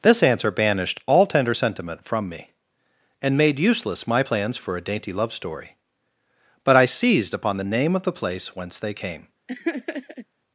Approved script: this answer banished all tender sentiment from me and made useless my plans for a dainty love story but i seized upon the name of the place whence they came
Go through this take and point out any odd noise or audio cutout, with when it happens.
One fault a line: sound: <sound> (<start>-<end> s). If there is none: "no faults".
sound: laugh (9.5-10.3 s)